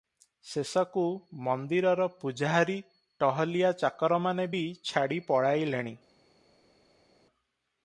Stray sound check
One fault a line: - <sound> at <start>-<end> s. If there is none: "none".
none